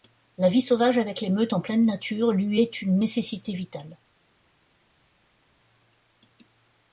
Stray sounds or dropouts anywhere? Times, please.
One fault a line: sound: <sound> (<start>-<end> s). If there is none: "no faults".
no faults